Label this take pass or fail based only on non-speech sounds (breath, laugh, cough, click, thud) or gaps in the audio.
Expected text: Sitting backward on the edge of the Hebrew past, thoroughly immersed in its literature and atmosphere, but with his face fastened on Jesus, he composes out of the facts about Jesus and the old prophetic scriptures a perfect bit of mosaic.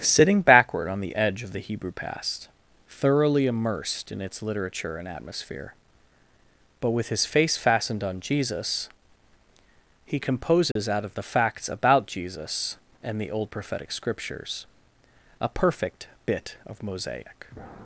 fail